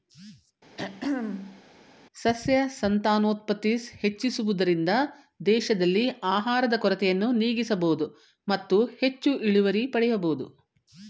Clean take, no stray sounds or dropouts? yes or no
no